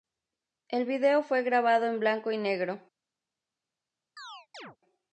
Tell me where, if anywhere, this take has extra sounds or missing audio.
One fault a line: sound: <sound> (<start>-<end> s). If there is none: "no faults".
sound: chirp (4.2-4.8 s)